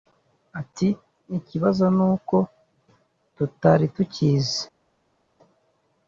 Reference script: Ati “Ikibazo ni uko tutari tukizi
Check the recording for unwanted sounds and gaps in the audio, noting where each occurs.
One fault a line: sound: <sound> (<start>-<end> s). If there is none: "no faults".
no faults